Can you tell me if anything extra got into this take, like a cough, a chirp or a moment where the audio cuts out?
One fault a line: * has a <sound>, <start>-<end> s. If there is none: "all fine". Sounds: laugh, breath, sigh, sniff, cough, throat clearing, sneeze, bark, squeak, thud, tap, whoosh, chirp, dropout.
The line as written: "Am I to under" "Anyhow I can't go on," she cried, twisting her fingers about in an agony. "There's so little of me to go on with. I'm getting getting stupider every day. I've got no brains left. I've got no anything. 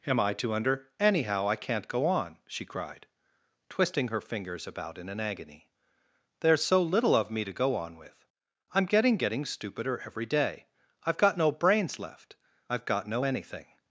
all fine